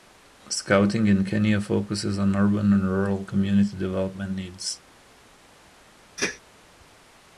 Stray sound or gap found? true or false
true